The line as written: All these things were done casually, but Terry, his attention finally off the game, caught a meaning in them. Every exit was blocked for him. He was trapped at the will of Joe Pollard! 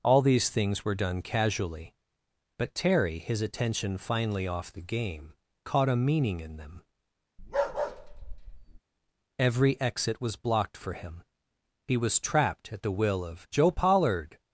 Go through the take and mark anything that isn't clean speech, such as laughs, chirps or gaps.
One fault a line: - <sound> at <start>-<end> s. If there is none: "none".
- bark at 7.4-8.8 s